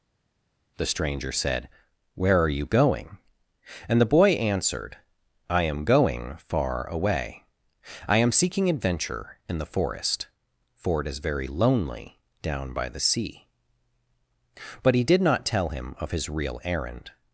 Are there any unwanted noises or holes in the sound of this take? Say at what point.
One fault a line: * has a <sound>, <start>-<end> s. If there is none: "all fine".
all fine